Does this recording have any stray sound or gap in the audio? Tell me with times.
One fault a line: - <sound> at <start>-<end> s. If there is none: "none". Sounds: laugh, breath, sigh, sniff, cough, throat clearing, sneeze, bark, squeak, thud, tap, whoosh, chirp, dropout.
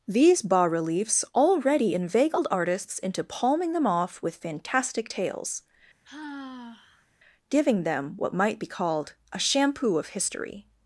- sigh at 6.0-7.1 s